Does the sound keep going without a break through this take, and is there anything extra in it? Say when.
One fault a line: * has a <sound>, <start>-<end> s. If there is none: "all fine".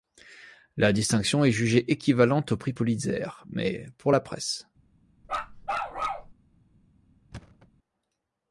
* has a bark, 5.2-6.3 s
* has a thud, 7.3-7.7 s